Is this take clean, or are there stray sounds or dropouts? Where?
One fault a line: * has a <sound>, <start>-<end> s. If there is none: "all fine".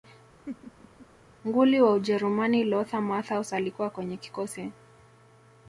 * has a laugh, 0.5-1.1 s